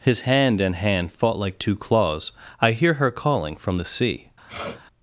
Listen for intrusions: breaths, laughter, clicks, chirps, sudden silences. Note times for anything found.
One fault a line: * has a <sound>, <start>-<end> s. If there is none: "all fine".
* has a sniff, 4.5-4.8 s